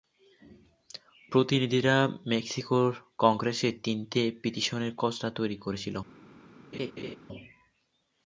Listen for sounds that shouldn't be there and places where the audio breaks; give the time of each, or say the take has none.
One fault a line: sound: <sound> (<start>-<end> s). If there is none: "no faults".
sound: laugh (6.7-7.2 s)